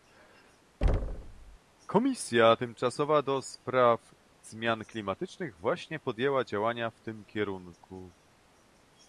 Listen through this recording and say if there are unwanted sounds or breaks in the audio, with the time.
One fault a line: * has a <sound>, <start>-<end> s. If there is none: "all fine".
* has a thud, 0.8-1.6 s